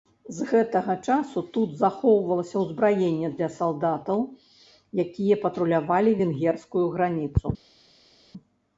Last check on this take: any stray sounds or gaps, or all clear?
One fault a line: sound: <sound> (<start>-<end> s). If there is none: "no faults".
no faults